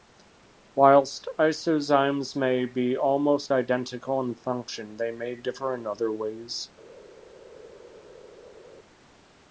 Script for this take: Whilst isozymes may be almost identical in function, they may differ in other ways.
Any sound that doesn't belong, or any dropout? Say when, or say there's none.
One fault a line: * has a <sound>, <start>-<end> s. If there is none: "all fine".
all fine